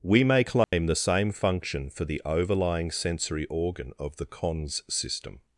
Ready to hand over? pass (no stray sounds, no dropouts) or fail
fail